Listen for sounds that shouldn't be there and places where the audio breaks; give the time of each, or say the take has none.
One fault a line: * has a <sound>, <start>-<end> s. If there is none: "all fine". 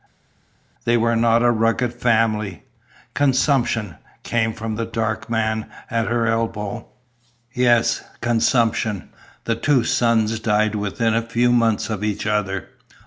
all fine